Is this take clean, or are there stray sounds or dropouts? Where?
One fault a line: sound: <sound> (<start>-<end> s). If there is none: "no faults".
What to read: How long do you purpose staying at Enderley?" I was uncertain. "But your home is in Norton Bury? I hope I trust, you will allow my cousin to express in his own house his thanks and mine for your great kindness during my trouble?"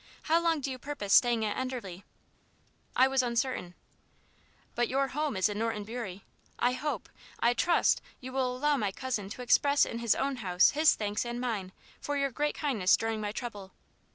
no faults